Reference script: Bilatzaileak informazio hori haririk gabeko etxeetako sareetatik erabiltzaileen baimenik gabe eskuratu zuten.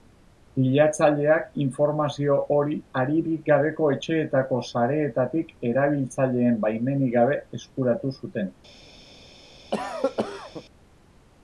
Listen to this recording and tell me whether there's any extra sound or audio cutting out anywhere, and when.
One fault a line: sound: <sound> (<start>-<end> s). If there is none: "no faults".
sound: cough (9.7-10.6 s)